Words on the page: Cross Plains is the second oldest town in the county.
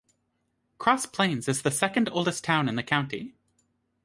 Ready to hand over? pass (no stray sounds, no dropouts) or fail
pass